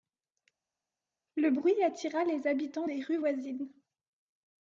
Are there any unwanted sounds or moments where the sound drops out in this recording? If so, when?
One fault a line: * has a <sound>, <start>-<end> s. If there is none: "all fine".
all fine